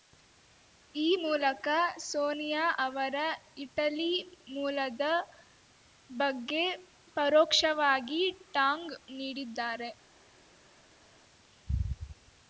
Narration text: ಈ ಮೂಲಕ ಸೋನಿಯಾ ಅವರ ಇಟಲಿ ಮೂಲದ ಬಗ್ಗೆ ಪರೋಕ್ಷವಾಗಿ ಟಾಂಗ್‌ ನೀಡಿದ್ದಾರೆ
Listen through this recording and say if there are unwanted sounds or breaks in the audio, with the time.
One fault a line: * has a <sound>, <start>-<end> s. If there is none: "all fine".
all fine